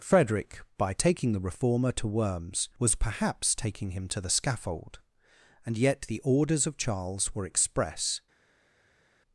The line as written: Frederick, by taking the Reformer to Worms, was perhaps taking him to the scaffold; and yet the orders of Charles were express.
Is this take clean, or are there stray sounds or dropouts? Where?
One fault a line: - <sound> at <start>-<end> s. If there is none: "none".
none